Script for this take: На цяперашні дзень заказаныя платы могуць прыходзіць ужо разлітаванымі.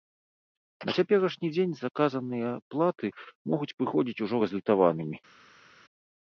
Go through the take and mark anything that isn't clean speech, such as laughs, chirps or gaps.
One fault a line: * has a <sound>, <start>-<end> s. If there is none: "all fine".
all fine